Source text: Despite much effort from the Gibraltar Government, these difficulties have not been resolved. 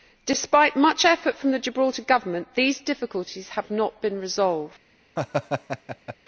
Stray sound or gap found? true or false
true